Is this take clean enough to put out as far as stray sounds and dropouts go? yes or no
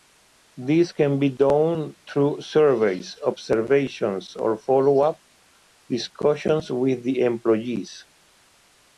yes